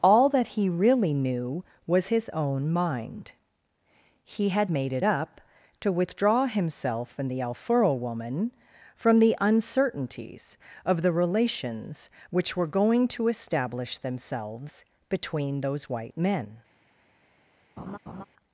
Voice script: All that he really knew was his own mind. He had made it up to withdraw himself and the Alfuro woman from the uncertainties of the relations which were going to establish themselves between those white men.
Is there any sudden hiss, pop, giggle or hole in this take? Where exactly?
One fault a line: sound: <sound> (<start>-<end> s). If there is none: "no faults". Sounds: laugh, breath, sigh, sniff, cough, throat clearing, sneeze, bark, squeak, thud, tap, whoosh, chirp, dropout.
sound: laugh (17.8-18.2 s)